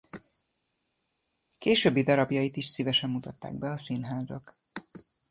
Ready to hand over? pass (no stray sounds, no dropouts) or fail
pass